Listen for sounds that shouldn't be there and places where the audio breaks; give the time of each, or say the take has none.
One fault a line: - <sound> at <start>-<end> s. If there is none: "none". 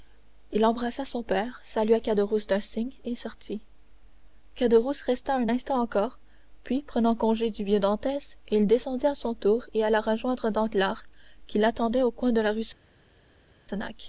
none